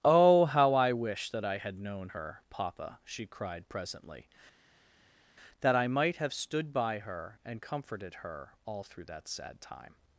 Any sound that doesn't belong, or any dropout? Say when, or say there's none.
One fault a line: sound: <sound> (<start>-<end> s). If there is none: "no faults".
no faults